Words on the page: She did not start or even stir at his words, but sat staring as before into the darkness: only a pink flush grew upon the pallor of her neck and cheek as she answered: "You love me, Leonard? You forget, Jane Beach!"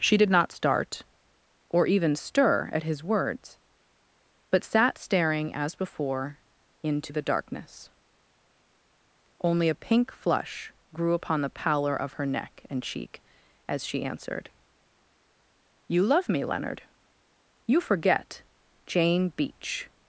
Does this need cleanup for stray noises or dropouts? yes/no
no